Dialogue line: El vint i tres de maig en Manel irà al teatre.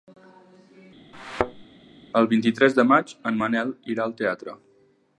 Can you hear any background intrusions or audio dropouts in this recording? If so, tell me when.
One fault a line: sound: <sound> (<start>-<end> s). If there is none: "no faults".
sound: thud (1.1-1.6 s)